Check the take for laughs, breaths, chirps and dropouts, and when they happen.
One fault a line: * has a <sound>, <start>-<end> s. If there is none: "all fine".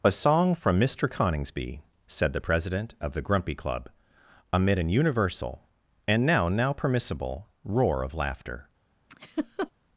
* has a laugh, 9.1-9.7 s